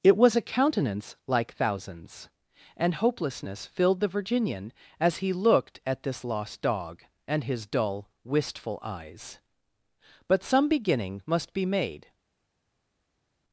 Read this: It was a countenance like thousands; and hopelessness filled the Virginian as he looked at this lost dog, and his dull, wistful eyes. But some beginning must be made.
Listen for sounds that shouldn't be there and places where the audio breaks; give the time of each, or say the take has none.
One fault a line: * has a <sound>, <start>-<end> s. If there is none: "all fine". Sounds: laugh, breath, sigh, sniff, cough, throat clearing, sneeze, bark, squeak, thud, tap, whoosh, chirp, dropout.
all fine